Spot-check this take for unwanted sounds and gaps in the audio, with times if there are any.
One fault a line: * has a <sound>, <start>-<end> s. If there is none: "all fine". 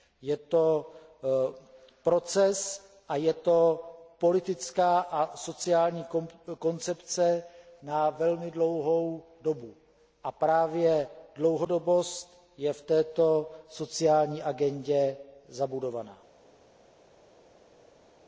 all fine